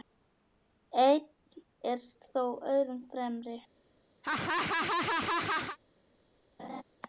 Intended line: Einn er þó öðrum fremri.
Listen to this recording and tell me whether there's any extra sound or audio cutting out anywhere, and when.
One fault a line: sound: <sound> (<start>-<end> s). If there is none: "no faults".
sound: laugh (4.2-5.8 s)
sound: laugh (6.6-6.8 s)